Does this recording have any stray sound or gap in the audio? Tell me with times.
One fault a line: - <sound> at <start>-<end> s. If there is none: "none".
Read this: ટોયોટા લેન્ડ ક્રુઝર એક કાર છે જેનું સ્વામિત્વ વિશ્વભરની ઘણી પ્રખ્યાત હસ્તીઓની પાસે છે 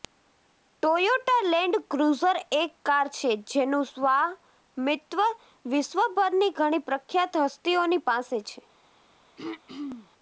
- throat clearing at 9.4-10.1 s